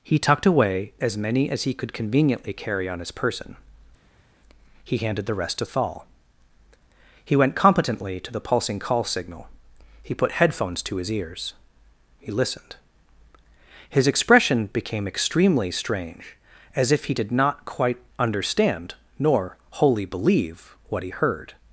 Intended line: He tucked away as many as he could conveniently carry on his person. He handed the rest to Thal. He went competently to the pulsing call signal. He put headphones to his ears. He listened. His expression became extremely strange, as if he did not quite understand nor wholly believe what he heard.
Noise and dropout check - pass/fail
pass